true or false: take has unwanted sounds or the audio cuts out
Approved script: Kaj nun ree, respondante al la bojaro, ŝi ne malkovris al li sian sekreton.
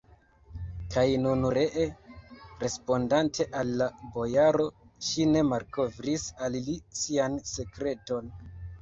false